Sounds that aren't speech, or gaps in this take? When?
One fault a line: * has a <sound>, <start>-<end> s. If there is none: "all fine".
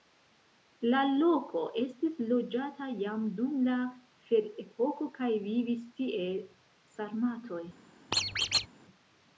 * has a squeak, 8.1-8.7 s